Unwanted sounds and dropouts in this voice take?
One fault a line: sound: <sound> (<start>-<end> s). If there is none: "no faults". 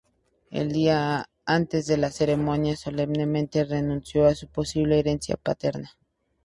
no faults